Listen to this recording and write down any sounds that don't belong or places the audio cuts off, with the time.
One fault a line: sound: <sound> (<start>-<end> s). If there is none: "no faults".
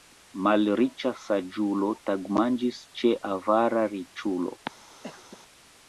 sound: cough (5.0-5.4 s)